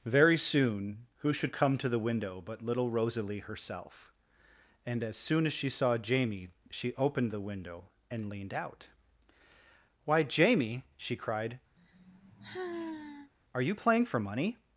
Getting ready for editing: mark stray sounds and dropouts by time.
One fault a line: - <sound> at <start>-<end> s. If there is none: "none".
- sigh at 11.8-13.3 s